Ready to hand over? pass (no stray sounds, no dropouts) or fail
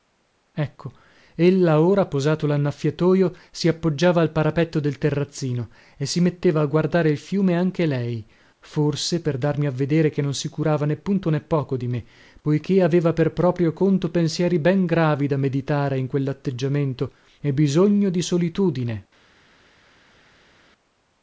pass